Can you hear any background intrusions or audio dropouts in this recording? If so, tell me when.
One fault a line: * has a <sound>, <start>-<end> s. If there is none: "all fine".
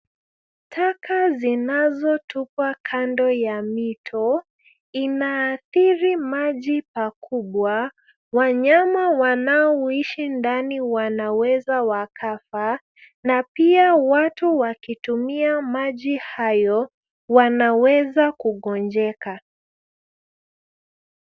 all fine